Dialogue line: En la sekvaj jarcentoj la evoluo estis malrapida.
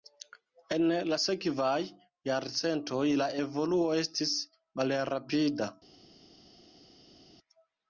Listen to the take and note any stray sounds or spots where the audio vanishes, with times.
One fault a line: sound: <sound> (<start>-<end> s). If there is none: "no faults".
no faults